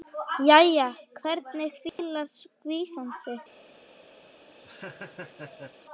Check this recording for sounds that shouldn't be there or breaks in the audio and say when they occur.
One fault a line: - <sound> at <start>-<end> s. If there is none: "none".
- dropout at 1.9-2.0 s
- laugh at 4.2-5.8 s